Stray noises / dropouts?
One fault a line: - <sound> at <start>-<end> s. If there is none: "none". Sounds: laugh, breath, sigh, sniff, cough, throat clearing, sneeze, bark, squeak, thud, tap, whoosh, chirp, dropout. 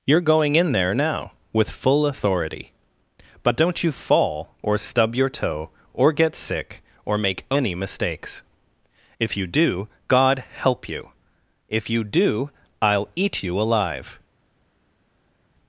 none